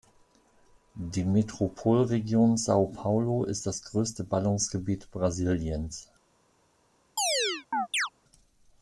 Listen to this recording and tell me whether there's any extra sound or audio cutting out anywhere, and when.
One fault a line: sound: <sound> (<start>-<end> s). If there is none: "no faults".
sound: chirp (7.2-8.1 s)